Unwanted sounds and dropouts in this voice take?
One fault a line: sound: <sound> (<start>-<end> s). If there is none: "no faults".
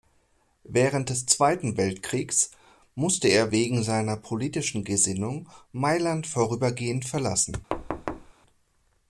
sound: thud (7.7-8.3 s)